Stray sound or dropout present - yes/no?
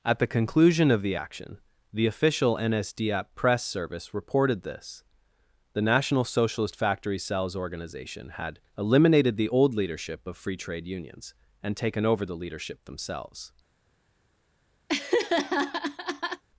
yes